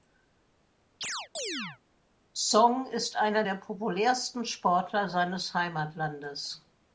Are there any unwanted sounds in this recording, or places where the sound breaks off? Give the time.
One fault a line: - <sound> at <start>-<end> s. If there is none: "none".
- chirp at 1.0-1.8 s